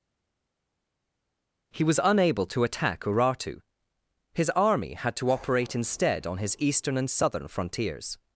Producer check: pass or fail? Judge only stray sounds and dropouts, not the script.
pass